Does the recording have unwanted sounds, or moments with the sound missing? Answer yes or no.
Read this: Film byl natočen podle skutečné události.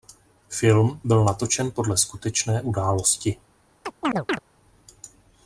yes